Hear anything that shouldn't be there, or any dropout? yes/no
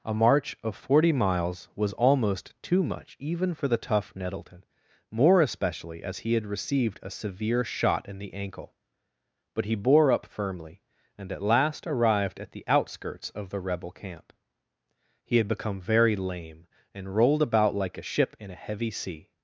no